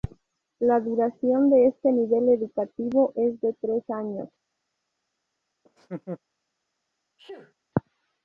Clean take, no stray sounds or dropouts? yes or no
no